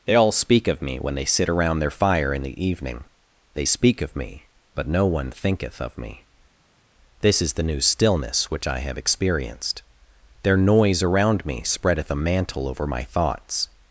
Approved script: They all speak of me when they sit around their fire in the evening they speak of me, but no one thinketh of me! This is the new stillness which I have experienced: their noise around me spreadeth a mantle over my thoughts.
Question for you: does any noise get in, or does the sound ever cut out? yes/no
no